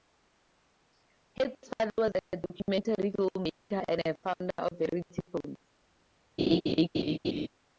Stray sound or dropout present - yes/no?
yes